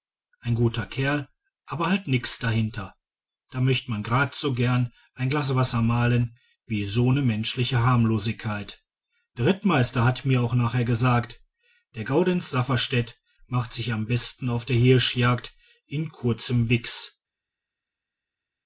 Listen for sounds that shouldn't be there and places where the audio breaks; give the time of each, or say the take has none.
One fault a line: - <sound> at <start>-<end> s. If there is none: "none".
none